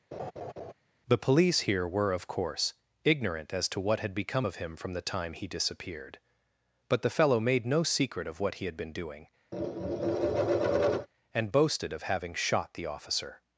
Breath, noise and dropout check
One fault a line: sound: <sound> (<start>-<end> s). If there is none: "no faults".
sound: laugh (0.1-0.7 s)
sound: tap (9.5-11.1 s)